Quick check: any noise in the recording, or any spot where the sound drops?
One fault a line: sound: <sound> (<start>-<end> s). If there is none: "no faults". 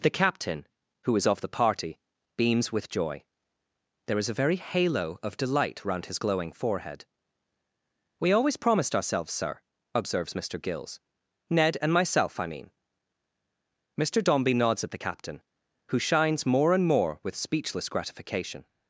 no faults